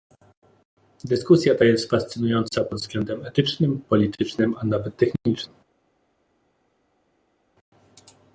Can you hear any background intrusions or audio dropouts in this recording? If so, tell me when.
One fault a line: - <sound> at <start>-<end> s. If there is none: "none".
none